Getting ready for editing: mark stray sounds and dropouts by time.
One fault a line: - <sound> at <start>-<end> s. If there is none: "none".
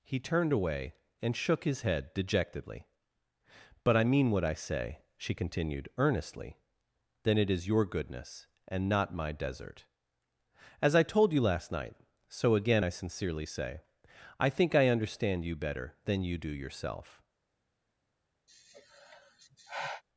- sigh at 18.5-20.0 s